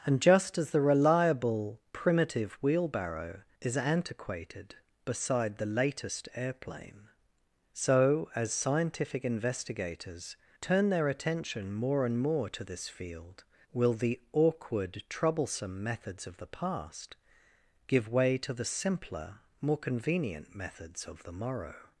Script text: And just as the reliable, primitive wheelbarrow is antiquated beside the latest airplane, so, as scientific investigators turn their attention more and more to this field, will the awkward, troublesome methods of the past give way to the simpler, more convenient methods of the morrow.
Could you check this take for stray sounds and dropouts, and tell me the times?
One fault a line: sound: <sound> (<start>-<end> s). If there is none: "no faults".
no faults